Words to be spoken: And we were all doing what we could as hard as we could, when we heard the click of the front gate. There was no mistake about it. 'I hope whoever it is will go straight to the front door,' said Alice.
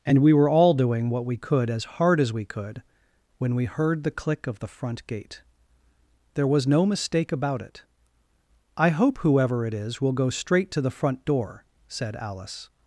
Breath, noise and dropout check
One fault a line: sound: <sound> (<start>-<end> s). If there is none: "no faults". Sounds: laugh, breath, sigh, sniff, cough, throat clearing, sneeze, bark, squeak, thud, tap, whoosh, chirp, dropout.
no faults